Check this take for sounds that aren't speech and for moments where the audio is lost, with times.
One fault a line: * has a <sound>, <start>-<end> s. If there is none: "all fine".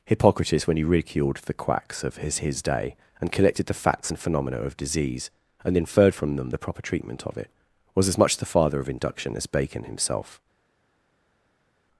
all fine